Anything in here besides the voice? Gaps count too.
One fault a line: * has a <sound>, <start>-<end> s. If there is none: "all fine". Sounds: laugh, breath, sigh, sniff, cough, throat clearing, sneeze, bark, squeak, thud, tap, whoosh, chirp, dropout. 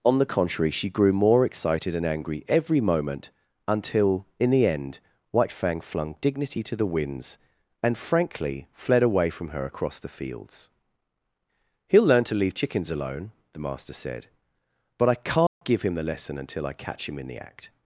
* has a dropout, 15.5-15.6 s